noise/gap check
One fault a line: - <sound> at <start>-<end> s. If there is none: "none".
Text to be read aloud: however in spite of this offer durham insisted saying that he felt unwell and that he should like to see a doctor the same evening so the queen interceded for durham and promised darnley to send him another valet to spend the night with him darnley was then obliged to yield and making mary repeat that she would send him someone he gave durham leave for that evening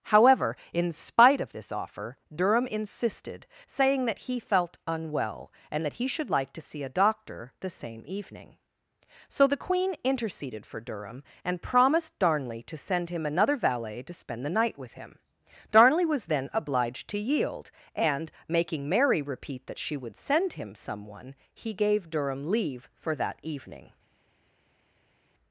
none